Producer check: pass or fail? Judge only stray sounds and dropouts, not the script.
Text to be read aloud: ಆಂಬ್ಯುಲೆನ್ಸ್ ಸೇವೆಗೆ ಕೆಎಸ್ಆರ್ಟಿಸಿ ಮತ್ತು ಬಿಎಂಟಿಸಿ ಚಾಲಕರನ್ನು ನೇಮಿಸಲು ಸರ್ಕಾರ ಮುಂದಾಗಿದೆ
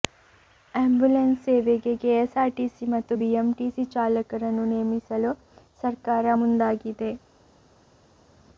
pass